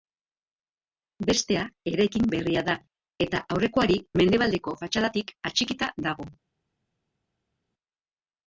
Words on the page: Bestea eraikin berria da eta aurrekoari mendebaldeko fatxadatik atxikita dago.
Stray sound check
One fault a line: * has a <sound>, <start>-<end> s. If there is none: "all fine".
all fine